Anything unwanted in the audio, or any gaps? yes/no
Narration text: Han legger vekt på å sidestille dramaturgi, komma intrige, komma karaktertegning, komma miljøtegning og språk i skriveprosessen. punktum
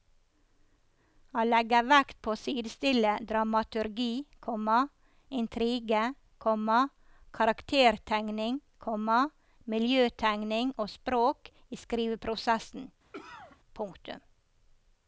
yes